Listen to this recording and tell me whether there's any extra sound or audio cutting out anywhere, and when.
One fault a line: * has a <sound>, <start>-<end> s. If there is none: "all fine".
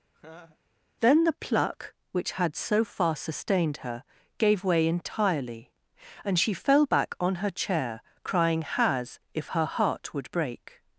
* has a laugh, 0.1-0.6 s